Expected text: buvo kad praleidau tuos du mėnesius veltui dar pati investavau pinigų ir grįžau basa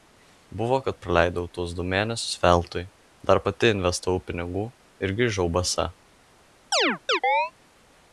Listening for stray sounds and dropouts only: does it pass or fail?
fail